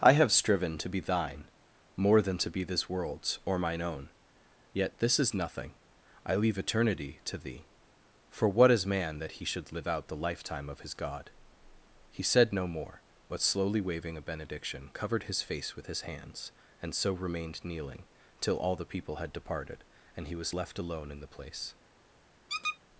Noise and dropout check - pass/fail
fail